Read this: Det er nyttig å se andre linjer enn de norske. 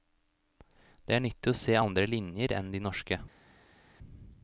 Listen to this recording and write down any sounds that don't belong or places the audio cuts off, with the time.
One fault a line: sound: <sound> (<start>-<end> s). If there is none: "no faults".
no faults